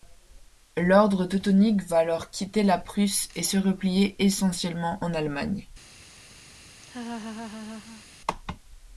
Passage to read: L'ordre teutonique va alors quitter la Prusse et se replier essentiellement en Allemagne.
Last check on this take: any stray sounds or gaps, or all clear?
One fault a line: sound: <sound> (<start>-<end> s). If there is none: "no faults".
sound: laugh (6.8-8.0 s)